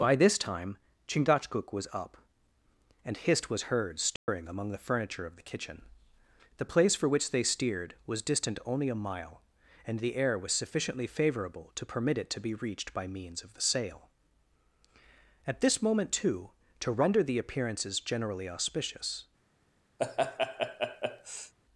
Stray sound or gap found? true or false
true